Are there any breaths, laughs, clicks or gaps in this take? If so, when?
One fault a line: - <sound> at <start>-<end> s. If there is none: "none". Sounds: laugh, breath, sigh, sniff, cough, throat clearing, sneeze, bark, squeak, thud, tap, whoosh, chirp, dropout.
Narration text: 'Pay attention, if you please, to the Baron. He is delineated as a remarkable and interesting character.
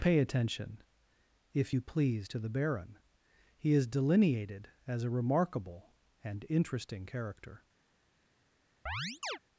- chirp at 8.9-9.4 s